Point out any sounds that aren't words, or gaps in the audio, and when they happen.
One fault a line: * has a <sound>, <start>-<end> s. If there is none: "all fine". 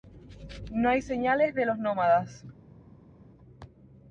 all fine